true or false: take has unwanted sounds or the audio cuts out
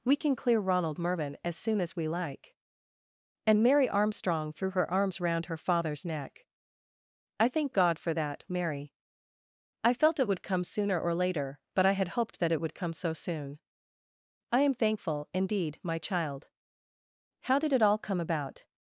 false